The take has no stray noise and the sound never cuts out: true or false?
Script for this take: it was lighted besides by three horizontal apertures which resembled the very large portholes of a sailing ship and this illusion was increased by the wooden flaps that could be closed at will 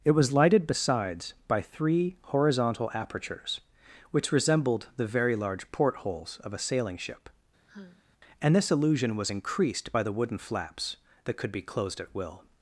false